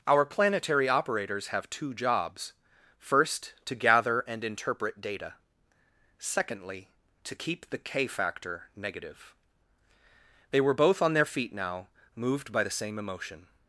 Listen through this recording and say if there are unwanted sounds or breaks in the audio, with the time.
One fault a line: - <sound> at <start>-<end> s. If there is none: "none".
none